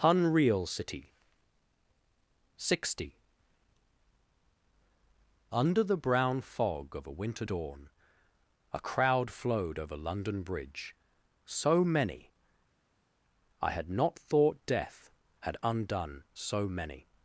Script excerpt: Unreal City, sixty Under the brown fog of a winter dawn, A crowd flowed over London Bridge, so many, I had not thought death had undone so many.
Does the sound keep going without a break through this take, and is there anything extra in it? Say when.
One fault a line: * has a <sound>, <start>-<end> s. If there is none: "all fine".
all fine